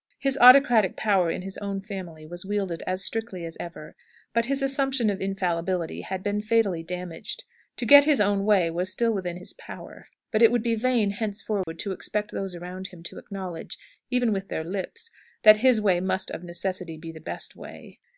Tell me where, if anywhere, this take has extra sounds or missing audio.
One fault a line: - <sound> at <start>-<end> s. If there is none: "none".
- dropout at 11.6-11.7 s